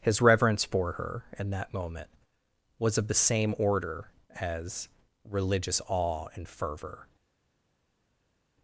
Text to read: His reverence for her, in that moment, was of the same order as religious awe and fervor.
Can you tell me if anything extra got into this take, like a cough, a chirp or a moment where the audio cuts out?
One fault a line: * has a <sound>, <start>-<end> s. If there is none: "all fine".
all fine